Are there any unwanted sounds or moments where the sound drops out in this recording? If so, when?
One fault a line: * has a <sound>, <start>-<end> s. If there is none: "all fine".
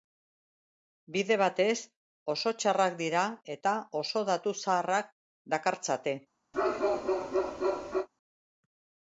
* has a bark, 6.5-8.1 s